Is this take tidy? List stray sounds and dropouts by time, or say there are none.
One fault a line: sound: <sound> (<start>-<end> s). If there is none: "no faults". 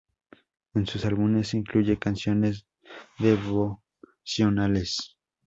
no faults